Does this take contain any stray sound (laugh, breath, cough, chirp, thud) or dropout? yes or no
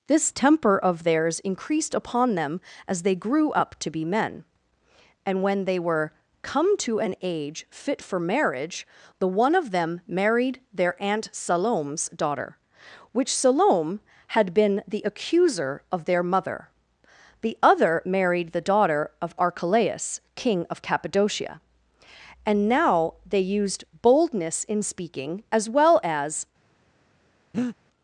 yes